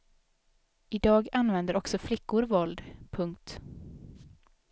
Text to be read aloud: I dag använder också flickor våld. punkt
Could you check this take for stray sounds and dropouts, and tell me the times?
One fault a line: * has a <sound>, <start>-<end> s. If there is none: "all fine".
all fine